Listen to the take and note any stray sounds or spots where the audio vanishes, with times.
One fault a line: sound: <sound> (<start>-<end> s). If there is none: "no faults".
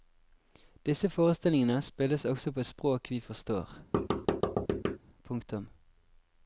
sound: thud (3.9-5.0 s)